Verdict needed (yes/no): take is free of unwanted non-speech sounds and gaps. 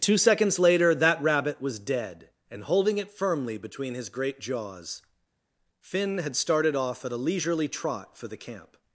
yes